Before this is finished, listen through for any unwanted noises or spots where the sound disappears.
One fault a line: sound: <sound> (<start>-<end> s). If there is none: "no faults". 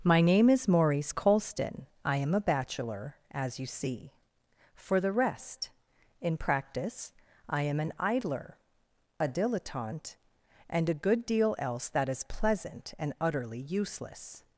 no faults